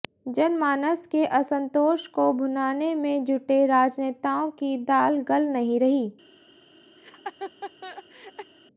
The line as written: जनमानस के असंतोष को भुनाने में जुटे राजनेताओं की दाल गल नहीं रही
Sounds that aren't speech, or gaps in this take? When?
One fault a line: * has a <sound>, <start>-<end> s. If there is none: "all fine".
* has a laugh, 7.0-8.5 s